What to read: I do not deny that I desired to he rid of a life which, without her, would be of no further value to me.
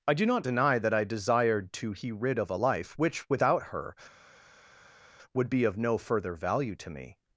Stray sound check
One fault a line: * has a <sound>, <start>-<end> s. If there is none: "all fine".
all fine